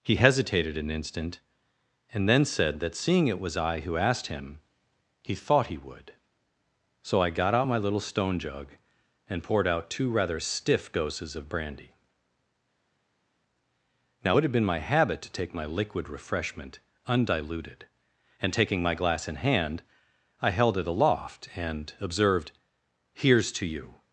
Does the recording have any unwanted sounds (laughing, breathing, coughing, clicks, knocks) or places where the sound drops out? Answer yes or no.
no